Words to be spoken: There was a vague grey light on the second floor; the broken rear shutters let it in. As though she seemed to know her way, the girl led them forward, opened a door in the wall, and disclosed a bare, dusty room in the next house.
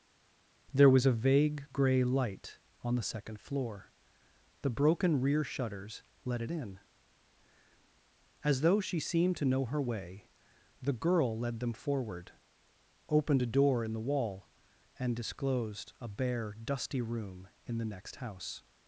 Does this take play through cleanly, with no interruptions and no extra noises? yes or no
yes